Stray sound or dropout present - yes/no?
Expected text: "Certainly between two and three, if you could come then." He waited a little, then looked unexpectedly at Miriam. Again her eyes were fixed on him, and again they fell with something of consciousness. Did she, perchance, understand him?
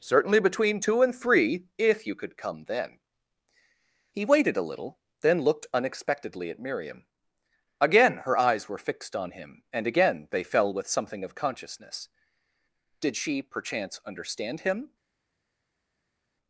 no